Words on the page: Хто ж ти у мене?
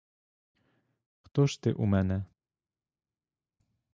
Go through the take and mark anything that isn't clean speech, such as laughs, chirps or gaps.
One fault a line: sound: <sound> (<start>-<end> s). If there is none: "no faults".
no faults